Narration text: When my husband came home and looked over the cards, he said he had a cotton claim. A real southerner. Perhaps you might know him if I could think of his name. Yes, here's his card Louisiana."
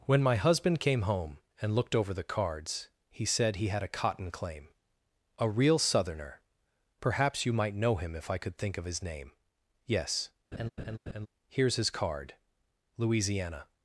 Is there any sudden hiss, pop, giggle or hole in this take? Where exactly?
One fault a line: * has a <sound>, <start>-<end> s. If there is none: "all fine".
* has a laugh, 10.5-11.3 s